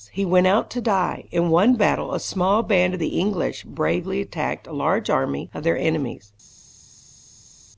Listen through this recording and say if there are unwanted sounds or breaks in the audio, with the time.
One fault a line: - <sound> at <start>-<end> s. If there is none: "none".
none